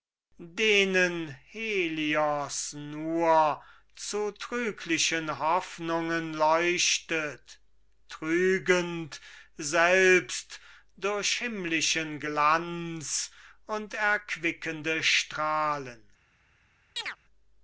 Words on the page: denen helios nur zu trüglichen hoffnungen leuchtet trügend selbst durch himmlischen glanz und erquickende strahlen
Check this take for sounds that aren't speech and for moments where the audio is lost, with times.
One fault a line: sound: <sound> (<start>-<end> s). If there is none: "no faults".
sound: chirp (17.0-17.2 s)